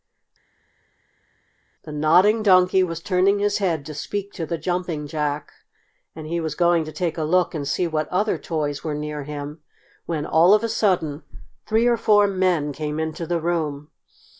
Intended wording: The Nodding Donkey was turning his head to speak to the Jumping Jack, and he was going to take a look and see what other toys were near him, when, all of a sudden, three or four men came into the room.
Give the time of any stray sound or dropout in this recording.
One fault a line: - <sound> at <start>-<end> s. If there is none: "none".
none